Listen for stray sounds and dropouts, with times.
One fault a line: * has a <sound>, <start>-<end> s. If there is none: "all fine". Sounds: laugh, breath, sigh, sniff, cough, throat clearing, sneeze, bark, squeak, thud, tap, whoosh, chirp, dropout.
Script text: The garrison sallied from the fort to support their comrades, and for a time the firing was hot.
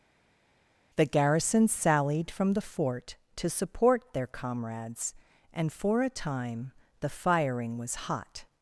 all fine